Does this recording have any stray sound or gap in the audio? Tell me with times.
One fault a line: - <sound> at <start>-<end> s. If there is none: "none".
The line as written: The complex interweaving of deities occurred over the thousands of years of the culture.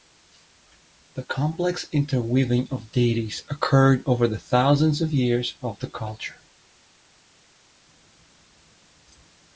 none